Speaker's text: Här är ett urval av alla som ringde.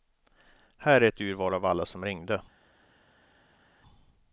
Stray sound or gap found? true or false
false